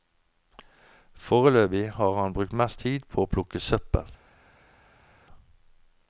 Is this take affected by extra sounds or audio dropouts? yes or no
no